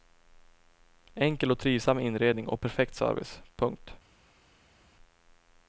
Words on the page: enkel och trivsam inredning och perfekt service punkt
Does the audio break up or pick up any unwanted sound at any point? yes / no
no